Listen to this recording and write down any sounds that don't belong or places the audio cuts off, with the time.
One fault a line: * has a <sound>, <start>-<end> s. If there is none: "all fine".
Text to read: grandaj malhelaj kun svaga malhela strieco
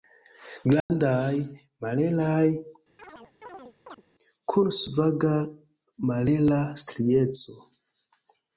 * has a dropout, 0.8-0.9 s
* has a chirp, 3.0-4.0 s